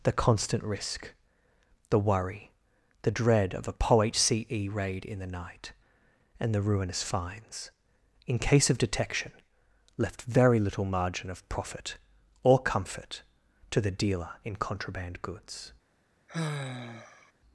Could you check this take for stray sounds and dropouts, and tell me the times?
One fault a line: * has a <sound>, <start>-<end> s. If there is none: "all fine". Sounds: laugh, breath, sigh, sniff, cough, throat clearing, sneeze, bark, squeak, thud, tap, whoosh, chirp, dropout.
* has a sigh, 16.3-17.3 s